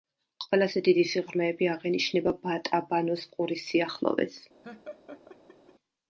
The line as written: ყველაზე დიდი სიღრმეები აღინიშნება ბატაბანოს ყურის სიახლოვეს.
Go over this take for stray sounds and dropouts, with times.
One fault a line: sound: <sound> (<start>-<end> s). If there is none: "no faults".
sound: laugh (4.6-5.7 s)